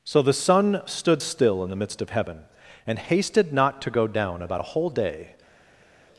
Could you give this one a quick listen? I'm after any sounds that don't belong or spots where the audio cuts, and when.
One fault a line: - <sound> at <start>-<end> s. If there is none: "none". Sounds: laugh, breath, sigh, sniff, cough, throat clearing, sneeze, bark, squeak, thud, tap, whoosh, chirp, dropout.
none